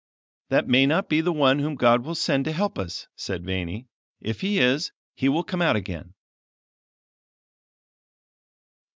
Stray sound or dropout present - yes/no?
no